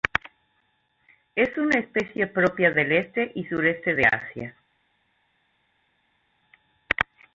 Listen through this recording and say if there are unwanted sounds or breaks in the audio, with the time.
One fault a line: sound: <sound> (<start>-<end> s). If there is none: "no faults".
no faults